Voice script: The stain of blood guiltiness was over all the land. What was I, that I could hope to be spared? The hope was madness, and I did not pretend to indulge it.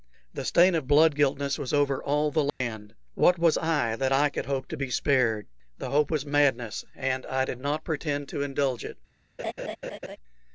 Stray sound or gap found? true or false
true